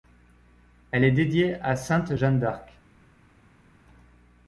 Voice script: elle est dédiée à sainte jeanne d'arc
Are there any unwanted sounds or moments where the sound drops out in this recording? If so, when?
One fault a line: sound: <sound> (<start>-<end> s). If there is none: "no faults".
no faults